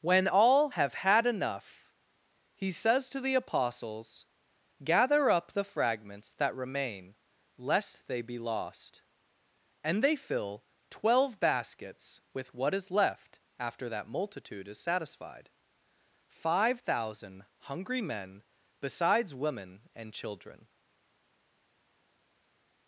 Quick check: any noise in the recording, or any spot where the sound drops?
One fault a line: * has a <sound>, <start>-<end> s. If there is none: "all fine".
all fine